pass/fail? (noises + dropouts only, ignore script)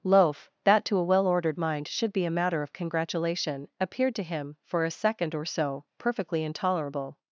pass